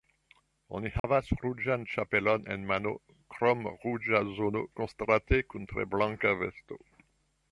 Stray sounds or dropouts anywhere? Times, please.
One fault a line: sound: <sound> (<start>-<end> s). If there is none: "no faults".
sound: dropout (1.0-1.0 s)